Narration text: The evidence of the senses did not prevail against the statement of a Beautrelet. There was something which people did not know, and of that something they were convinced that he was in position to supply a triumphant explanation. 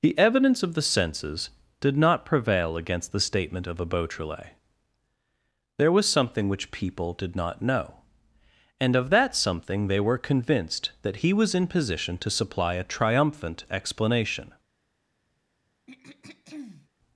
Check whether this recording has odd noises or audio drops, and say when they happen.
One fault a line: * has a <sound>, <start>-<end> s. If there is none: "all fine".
* has a throat clearing, 15.9-16.9 s